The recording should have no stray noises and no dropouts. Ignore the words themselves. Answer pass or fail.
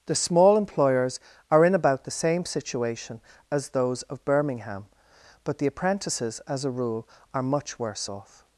pass